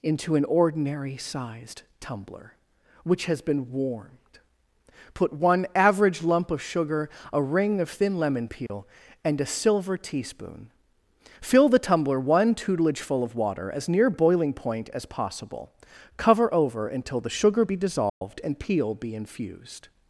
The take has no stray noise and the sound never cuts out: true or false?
false